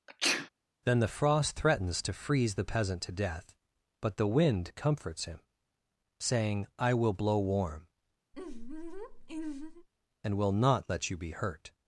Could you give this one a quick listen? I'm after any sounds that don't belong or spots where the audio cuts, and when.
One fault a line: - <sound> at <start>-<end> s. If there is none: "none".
- sneeze at 0.1-0.5 s
- laugh at 8.3-9.9 s